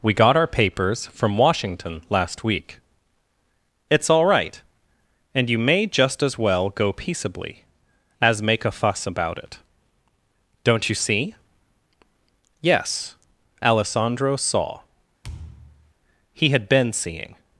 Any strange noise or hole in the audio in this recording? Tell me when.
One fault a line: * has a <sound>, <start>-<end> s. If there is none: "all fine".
* has a thud, 15.2-15.9 s